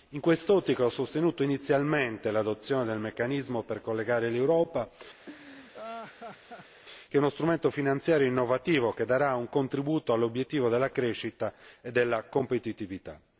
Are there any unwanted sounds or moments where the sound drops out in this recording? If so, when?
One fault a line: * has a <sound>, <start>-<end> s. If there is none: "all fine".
* has a laugh, 5.3-6.8 s